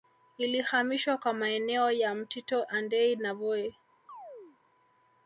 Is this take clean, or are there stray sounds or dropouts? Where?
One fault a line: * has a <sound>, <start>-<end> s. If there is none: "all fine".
* has a chirp, 4.1-4.6 s